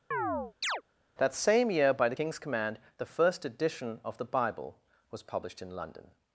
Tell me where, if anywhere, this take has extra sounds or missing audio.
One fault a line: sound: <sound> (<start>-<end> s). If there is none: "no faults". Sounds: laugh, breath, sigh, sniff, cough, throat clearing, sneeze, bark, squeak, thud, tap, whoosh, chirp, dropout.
sound: chirp (0.1-0.8 s)